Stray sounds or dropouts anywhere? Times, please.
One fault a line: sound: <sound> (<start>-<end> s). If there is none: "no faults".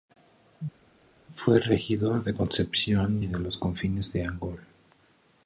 no faults